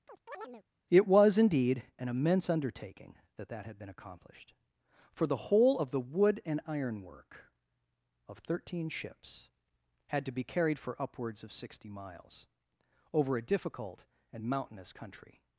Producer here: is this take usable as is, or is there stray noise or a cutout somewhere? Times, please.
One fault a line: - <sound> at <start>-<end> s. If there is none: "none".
- chirp at 0.1-0.6 s